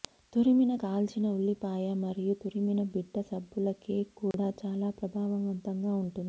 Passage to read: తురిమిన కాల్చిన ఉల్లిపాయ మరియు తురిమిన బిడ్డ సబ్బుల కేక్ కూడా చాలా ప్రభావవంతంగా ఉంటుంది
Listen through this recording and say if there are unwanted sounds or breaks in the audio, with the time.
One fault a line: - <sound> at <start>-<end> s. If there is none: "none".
- dropout at 4.3-4.3 s